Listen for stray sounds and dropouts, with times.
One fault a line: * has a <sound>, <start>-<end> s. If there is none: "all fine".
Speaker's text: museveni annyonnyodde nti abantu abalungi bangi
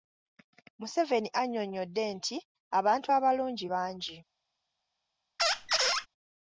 * has a squeak, 5.4-6.1 s